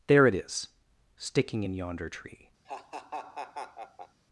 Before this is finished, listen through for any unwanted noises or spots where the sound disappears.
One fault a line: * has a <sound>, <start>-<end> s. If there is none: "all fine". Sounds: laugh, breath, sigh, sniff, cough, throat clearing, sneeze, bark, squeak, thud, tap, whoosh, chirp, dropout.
* has a laugh, 2.6-4.2 s